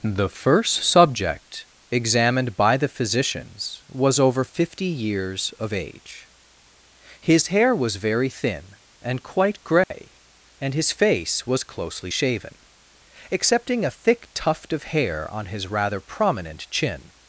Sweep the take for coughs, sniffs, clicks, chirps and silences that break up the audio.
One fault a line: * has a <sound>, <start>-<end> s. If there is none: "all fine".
* has a dropout, 9.8-9.9 s